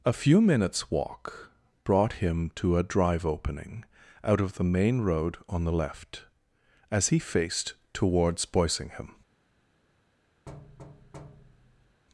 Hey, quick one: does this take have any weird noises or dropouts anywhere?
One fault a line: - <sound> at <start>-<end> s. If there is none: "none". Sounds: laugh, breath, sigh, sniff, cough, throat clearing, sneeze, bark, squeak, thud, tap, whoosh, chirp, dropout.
- thud at 10.5-12.0 s